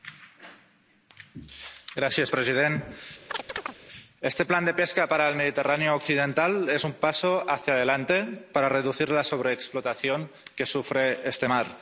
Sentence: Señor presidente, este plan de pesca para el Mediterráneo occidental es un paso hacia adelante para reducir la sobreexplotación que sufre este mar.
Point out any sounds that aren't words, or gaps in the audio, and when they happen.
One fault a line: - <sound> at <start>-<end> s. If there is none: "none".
- chirp at 3.3-3.8 s